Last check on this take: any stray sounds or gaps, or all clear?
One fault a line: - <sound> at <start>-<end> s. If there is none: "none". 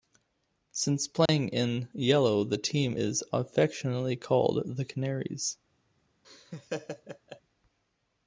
- dropout at 1.3-1.3 s
- laugh at 6.2-7.4 s